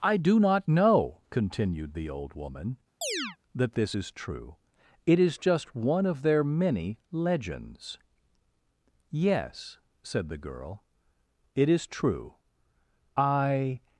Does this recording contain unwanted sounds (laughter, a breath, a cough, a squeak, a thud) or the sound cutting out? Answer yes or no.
yes